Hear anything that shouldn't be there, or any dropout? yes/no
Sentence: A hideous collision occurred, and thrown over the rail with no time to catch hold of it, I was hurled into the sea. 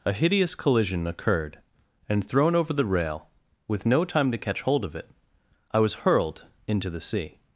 no